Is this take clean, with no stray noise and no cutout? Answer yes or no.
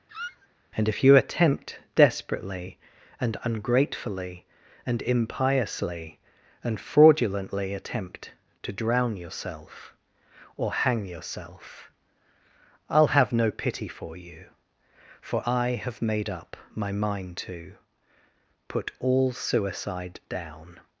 no